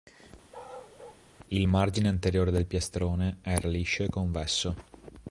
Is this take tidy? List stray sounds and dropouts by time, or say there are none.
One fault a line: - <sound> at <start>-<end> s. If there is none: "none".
- bark at 0.5-1.2 s